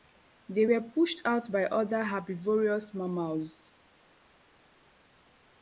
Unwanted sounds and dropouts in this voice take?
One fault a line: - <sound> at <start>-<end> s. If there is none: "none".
none